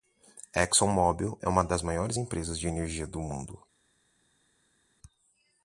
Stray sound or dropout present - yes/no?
no